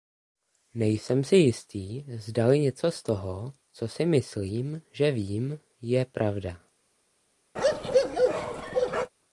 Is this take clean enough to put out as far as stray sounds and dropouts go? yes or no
no